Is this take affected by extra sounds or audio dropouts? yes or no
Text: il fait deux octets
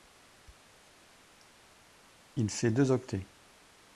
no